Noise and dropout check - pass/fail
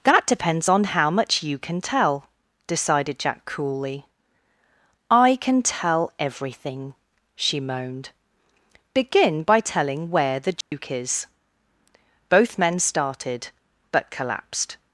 fail